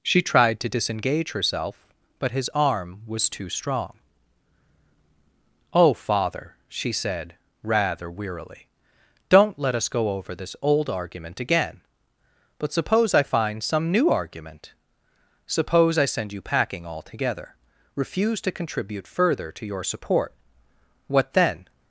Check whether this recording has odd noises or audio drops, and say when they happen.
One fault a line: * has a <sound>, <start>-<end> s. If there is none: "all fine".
all fine